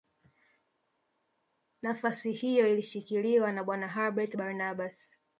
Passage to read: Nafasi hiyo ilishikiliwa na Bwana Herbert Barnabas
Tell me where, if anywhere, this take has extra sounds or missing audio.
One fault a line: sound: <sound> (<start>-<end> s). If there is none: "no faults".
no faults